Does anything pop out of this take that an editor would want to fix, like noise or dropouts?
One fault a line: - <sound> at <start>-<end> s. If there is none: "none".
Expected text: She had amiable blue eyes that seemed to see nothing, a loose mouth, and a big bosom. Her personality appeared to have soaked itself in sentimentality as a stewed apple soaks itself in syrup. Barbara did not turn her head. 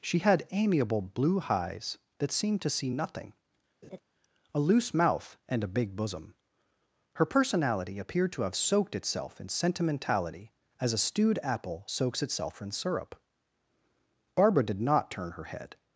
- laugh at 3.8-4.0 s